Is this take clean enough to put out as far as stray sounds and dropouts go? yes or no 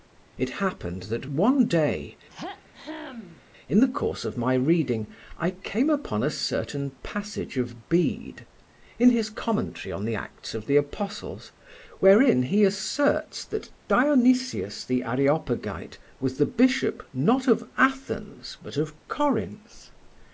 no